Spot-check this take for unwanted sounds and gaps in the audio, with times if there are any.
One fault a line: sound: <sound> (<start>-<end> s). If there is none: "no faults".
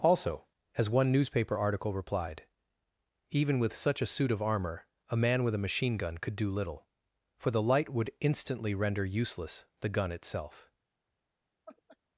sound: laugh (11.7-12.0 s)